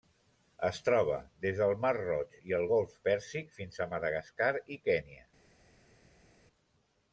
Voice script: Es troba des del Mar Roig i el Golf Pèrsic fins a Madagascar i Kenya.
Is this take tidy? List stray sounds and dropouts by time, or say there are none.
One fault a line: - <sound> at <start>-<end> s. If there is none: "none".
none